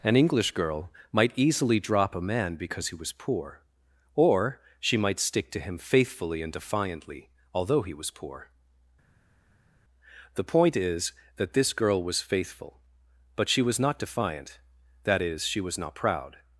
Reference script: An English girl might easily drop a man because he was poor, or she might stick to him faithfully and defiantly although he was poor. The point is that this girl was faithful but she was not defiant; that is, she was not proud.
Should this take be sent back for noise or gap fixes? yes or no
no